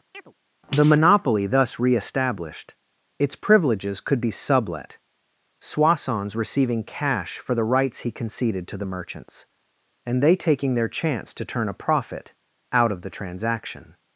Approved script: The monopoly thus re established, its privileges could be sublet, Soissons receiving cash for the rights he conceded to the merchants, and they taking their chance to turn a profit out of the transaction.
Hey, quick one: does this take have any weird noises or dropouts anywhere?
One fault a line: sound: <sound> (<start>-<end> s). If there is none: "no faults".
sound: chirp (0.1-0.3 s)